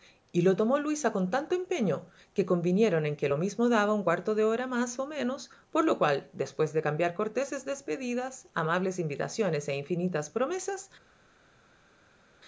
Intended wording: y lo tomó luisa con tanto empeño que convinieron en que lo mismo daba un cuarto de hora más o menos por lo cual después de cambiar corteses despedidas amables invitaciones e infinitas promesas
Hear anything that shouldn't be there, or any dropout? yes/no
no